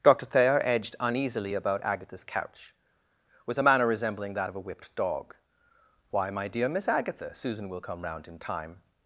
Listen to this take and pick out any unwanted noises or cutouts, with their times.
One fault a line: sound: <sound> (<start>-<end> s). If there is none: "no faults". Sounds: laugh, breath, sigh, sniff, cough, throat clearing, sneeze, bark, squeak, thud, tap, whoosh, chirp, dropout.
no faults